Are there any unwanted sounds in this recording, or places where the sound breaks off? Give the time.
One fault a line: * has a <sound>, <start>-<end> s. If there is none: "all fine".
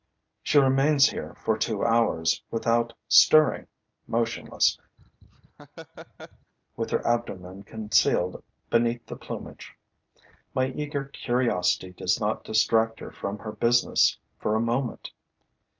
* has a laugh, 5.0-6.5 s